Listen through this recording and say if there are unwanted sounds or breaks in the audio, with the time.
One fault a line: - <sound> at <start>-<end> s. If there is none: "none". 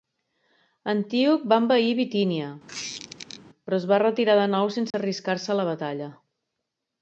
- squeak at 2.7-3.4 s
- dropout at 4.9-4.9 s